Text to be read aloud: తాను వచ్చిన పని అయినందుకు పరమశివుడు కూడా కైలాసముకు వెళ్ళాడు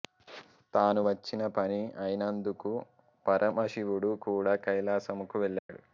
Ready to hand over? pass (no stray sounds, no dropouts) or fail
fail